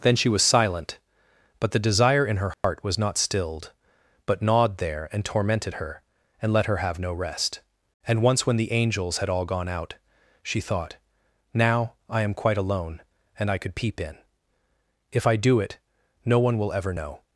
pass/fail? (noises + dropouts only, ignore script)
fail